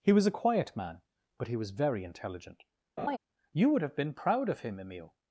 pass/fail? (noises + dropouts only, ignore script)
fail